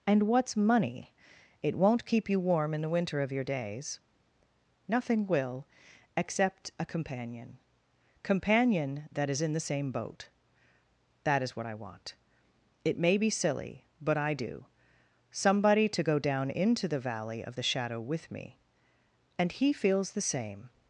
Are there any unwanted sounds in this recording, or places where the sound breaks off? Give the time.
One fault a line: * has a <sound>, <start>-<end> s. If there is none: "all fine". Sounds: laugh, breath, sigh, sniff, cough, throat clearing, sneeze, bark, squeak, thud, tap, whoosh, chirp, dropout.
all fine